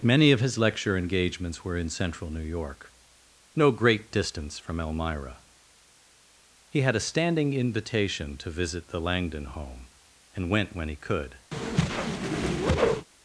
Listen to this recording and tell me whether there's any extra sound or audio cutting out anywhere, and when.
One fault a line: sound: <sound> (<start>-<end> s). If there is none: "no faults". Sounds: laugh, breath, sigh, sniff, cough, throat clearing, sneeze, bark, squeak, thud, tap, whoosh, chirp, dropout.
sound: whoosh (11.5-13.1 s)